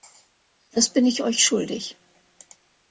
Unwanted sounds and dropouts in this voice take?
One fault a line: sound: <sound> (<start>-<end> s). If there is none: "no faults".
no faults